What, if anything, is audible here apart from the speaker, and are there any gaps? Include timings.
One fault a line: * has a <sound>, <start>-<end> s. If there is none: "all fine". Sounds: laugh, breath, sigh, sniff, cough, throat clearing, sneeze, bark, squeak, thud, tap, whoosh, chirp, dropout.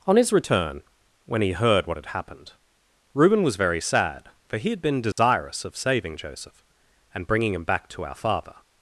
* has a dropout, 5.1-5.2 s